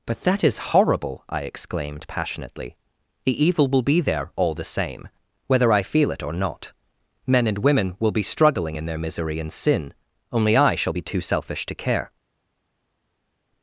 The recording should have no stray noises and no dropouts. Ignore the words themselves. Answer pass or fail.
pass